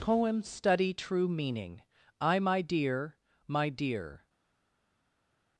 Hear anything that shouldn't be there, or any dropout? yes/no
no